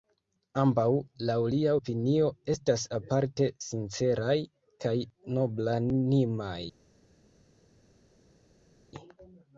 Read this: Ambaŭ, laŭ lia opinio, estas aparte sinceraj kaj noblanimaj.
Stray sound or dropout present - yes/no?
no